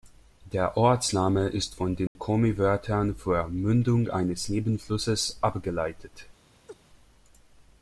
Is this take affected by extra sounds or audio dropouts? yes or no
yes